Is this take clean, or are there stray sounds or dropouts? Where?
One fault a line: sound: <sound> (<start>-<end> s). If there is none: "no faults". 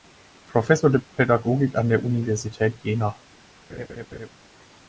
sound: laugh (3.7-4.3 s)